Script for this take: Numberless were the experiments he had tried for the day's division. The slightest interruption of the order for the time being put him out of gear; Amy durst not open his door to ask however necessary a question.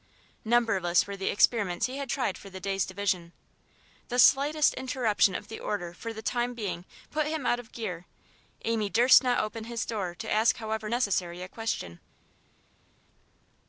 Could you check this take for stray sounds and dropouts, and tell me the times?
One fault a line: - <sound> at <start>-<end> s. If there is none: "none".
none